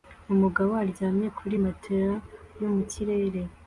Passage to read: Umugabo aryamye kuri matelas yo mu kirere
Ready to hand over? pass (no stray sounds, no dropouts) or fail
pass